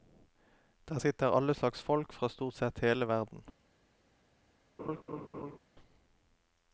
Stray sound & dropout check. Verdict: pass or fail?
fail